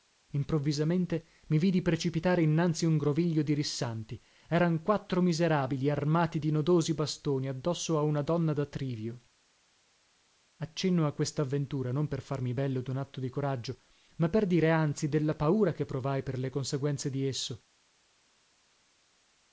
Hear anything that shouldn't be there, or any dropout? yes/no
no